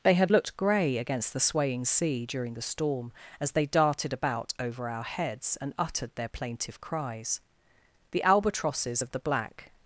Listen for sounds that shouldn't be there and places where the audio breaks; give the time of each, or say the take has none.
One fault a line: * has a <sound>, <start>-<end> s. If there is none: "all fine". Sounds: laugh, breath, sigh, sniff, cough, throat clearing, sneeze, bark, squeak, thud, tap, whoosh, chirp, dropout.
all fine